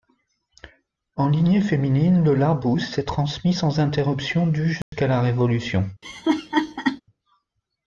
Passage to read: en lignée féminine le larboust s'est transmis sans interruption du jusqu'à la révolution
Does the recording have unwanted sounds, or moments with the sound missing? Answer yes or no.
yes